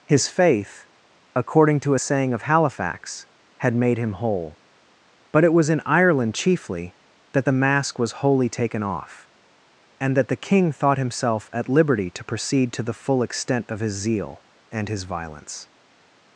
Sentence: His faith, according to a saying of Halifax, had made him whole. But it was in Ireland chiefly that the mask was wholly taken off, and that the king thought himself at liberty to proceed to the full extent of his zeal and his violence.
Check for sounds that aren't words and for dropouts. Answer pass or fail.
pass